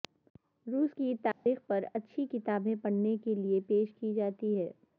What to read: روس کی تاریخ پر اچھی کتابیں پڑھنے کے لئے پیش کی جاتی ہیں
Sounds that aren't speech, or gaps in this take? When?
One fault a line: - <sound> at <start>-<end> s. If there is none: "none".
- dropout at 1.3-1.5 s